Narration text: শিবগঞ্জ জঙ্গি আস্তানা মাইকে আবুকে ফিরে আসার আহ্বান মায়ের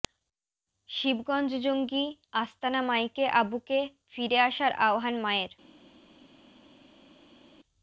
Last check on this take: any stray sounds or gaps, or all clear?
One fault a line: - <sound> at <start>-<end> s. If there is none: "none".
none